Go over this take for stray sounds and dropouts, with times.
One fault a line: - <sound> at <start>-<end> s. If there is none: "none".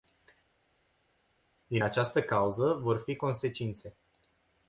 none